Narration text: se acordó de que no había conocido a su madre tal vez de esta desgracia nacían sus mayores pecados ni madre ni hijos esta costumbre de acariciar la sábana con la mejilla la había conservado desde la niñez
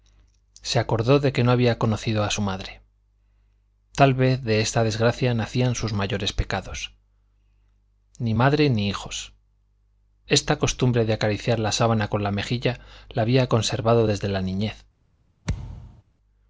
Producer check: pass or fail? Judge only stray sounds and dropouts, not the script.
fail